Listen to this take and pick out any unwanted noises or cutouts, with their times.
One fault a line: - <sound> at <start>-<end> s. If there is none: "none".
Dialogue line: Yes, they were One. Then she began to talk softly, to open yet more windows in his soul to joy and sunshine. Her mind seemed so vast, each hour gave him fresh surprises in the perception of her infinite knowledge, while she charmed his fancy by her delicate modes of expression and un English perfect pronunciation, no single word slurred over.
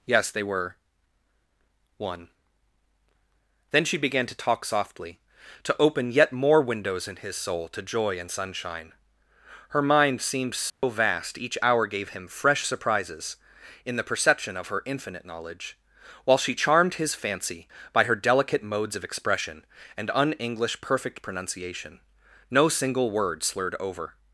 - dropout at 10.7-10.8 s